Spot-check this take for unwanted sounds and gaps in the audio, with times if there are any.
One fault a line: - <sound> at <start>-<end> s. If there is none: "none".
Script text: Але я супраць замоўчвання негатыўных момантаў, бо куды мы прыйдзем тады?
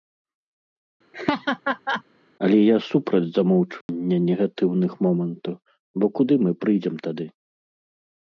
- laugh at 1.1-2.0 s
- dropout at 3.8-3.9 s